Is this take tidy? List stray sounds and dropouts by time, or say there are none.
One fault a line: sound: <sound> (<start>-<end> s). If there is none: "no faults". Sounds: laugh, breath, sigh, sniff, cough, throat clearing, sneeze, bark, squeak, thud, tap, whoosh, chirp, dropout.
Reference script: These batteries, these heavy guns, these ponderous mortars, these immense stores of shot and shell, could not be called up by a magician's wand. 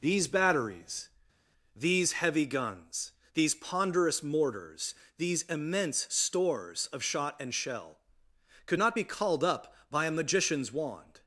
no faults